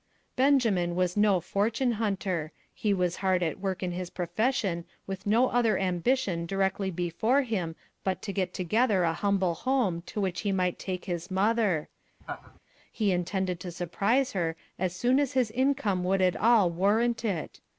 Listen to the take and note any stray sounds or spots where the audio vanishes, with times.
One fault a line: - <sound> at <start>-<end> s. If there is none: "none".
- laugh at 12.2-12.6 s